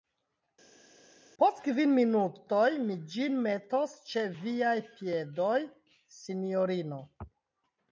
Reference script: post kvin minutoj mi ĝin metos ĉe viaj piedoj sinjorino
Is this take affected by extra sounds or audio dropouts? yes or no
no